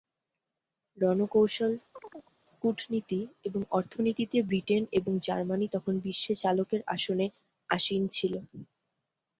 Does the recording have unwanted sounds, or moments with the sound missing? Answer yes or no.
yes